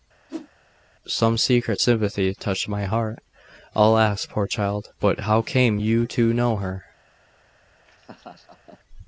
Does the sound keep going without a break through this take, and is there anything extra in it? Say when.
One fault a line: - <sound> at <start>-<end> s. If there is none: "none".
- whoosh at 0.3-0.5 s
- laugh at 7.9-8.8 s